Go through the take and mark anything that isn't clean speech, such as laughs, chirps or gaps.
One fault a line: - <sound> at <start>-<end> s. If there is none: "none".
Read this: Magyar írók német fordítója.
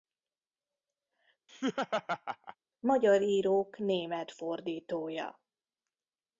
- laugh at 1.5-2.6 s